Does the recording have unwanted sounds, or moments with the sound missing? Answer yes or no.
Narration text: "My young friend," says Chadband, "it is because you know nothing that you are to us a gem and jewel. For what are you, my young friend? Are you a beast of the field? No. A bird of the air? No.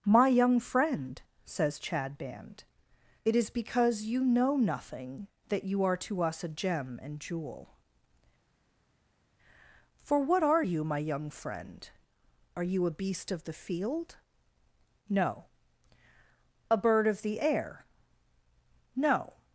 no